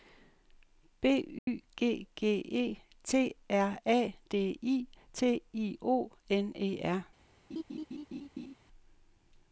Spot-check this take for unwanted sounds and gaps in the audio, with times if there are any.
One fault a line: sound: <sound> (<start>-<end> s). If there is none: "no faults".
sound: dropout (1.4-1.5 s)
sound: laugh (7.5-8.6 s)